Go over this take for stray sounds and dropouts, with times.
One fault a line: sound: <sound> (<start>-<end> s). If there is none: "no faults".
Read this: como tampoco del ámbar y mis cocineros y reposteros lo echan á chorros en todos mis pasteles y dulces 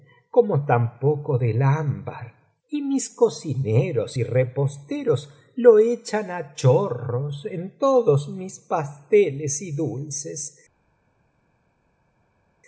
no faults